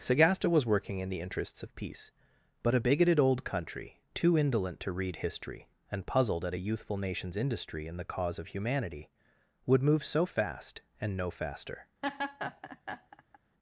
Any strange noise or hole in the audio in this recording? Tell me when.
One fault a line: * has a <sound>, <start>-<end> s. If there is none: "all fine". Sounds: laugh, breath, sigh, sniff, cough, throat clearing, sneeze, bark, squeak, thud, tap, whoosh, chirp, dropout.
* has a laugh, 12.0-13.4 s